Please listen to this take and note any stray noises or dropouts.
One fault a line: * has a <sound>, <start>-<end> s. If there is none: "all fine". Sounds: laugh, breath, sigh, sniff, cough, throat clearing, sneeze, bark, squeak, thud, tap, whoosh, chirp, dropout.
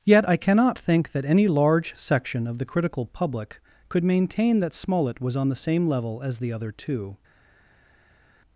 all fine